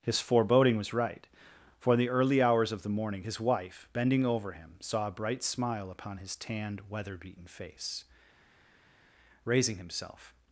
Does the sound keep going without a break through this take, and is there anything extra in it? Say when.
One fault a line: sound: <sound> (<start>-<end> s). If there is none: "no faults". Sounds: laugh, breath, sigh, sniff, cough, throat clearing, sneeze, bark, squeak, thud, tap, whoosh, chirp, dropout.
no faults